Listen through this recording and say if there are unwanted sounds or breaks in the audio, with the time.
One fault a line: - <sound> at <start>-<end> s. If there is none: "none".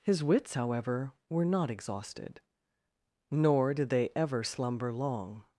none